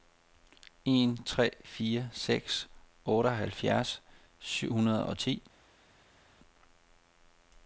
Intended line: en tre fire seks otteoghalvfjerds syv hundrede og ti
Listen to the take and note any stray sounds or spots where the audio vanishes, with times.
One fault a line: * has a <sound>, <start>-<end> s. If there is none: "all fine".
all fine